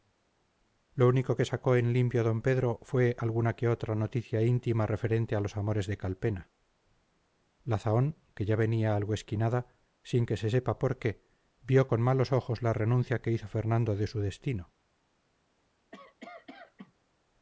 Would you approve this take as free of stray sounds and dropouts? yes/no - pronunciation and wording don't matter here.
no